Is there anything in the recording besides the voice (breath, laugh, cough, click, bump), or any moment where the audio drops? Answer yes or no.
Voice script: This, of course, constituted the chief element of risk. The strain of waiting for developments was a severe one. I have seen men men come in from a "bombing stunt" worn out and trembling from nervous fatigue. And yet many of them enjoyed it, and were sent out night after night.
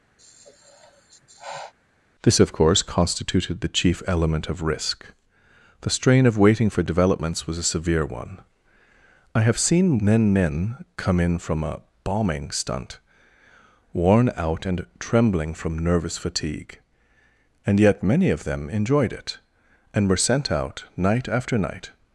yes